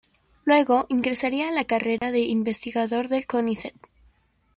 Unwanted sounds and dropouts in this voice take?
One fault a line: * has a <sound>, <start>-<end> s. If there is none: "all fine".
* has a dropout, 2.0-2.0 s